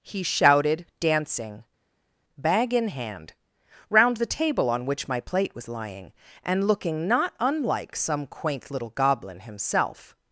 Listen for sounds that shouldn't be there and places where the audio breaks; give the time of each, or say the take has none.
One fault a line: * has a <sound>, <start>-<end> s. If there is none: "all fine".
all fine